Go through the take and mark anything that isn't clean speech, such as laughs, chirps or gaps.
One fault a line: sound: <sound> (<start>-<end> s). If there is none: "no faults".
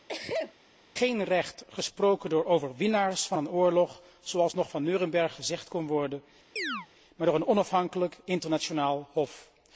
sound: sneeze (0.1-0.5 s)
sound: chirp (6.6-6.9 s)